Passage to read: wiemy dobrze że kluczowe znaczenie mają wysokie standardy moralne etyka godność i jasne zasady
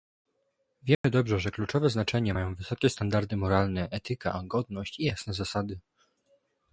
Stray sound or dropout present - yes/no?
yes